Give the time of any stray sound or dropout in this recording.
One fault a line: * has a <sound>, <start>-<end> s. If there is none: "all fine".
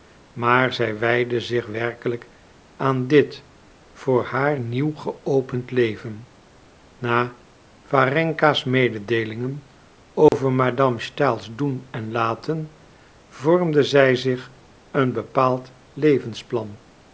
* has a dropout, 10.3-10.3 s